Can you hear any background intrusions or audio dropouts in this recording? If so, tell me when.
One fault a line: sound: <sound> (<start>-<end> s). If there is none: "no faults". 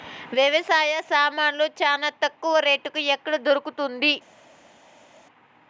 no faults